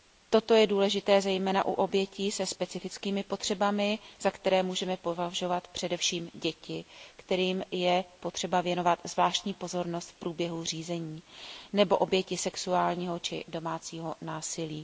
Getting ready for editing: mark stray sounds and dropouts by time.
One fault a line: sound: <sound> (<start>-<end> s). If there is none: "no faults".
no faults